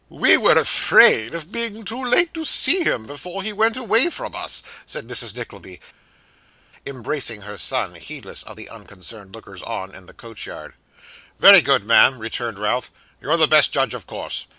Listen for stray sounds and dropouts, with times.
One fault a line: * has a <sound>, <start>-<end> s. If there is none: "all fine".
all fine